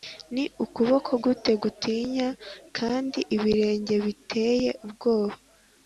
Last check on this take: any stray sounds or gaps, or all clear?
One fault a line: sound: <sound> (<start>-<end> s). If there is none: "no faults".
no faults